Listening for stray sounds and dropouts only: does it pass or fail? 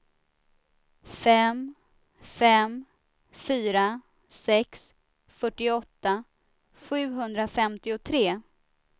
pass